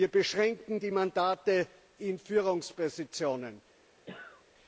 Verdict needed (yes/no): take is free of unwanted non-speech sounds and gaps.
no